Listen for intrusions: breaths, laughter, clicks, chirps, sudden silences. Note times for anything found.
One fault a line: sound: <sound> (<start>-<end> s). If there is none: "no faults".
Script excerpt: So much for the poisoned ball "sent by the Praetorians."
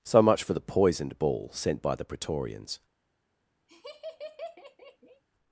sound: laugh (3.7-5.2 s)